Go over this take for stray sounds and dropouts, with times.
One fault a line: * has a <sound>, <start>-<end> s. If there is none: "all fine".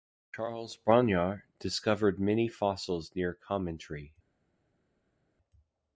all fine